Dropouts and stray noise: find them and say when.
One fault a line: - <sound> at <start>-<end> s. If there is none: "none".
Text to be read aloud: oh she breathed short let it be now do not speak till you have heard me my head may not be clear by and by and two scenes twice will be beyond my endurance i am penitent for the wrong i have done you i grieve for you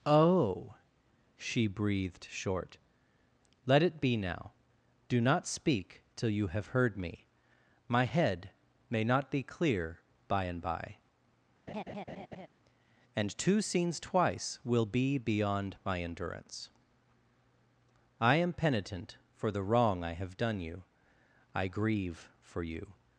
- laugh at 11.7-12.5 s